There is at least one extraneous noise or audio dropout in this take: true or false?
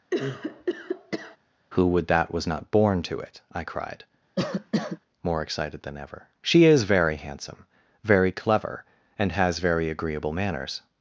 true